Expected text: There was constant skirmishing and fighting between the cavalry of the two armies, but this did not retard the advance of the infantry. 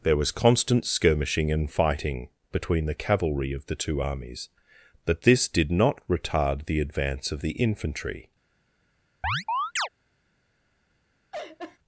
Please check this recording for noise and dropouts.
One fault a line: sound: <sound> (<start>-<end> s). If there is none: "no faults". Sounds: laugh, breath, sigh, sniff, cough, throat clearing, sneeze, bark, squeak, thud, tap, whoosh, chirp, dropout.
sound: chirp (9.2-9.9 s)
sound: laugh (11.3-11.8 s)